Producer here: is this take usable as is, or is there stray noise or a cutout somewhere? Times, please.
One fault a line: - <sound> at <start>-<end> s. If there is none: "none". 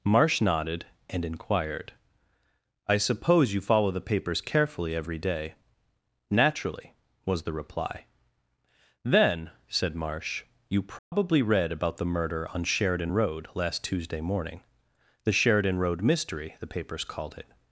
- dropout at 11.0-11.1 s